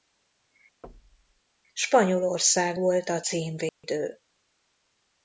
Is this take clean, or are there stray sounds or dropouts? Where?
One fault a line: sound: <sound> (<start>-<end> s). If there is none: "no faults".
sound: thud (0.8-1.4 s)
sound: dropout (3.7-3.8 s)